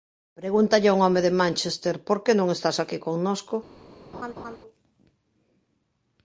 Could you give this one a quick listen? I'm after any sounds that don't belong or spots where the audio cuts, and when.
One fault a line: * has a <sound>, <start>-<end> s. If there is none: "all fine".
* has a laugh, 4.1-4.6 s